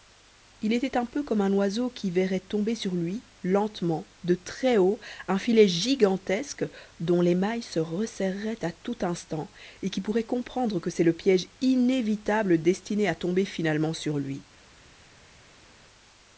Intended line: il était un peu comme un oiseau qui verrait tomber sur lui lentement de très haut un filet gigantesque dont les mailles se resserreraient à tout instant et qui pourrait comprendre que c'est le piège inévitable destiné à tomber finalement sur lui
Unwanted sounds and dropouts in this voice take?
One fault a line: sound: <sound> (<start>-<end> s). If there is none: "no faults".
no faults